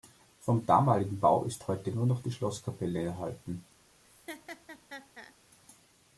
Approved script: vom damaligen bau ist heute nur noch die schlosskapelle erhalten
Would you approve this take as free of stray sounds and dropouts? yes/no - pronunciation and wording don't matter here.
no